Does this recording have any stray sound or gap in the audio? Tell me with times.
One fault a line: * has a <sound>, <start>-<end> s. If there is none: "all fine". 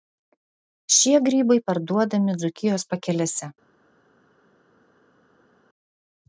all fine